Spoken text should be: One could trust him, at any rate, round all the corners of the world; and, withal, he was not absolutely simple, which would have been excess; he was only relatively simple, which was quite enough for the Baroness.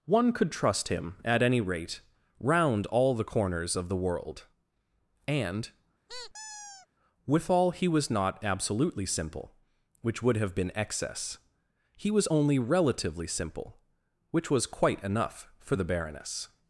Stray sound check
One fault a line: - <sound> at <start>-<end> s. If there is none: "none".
- squeak at 6.1-6.9 s